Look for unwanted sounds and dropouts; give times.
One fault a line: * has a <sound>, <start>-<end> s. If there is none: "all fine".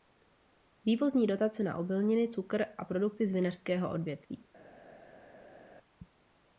all fine